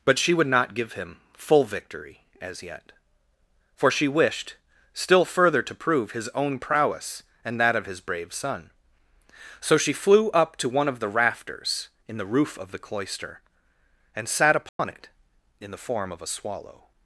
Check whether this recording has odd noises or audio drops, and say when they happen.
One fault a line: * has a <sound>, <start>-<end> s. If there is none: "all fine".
* has a dropout, 14.7-14.8 s